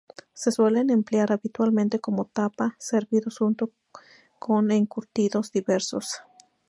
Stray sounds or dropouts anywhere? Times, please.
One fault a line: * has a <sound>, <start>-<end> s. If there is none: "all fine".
all fine